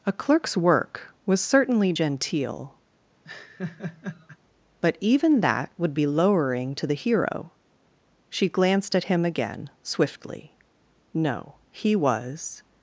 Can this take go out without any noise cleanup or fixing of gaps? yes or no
no